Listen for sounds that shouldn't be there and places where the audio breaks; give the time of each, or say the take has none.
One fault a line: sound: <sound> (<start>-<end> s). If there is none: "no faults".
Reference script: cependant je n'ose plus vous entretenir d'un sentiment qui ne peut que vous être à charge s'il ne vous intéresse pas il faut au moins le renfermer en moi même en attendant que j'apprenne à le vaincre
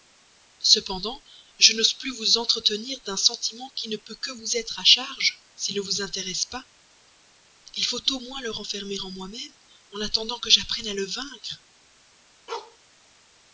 sound: bark (12.5-12.8 s)